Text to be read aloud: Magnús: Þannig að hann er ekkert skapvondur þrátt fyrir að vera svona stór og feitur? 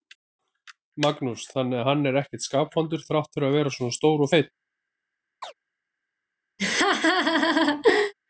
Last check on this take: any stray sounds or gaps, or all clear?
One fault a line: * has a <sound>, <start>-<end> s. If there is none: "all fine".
* has a chirp, 5.4-5.5 s
* has a laugh, 6.6-8.1 s